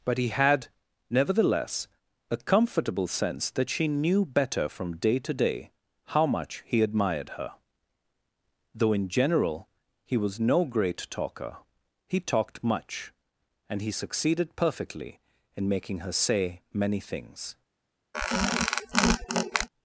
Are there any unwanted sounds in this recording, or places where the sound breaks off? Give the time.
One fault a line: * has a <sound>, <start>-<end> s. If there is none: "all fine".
* has a squeak, 18.1-19.7 s